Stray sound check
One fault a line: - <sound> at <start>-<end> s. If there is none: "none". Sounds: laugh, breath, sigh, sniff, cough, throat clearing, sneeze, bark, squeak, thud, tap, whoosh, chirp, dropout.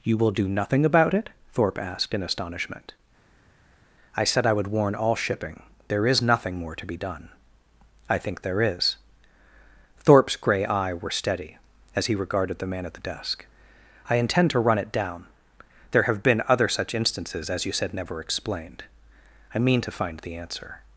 none